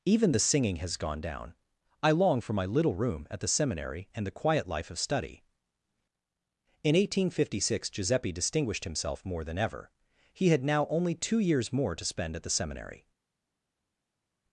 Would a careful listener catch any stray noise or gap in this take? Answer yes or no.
no